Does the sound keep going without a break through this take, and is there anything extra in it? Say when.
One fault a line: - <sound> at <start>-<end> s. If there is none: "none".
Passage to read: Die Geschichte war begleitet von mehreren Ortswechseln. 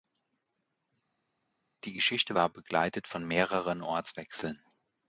none